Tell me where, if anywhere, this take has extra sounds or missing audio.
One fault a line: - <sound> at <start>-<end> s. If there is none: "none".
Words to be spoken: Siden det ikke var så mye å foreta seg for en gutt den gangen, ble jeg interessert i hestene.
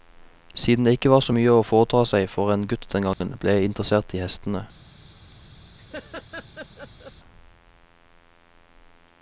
- dropout at 3.1-3.2 s
- laugh at 5.8-7.1 s